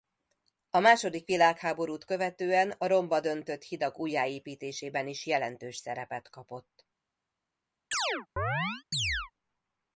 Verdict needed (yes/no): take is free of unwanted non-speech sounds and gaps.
no